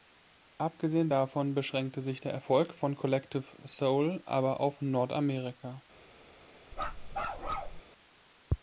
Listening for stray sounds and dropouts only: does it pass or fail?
fail